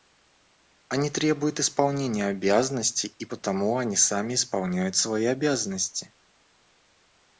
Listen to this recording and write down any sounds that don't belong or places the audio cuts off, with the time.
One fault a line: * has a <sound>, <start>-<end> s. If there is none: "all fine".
all fine